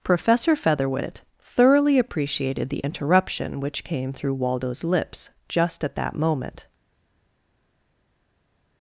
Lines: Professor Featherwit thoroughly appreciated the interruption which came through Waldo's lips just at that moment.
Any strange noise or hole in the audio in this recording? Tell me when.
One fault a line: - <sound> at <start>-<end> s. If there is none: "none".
none